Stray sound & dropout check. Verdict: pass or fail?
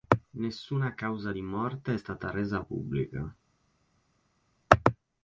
pass